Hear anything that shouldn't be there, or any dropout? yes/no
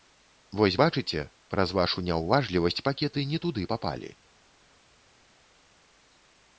no